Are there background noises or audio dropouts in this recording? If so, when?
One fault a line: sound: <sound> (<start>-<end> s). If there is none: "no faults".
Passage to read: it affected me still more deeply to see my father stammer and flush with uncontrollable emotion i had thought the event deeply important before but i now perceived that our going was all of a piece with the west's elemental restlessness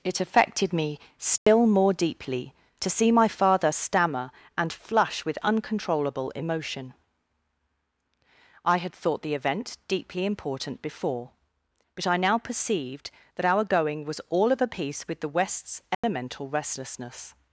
sound: dropout (1.4-1.5 s)
sound: dropout (15.9-16.0 s)